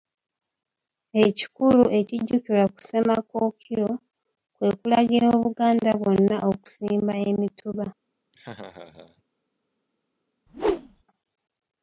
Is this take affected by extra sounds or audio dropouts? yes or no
yes